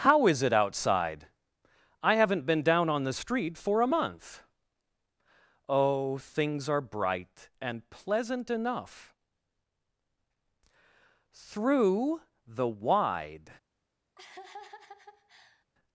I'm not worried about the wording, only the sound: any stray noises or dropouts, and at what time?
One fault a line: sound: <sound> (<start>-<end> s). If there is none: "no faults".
sound: laugh (14.2-15.6 s)